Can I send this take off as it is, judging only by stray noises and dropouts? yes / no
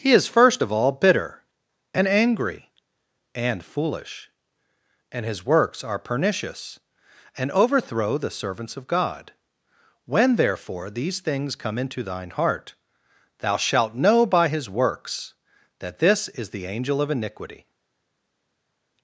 yes